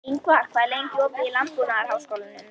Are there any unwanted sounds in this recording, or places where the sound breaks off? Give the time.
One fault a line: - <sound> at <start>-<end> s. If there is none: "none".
none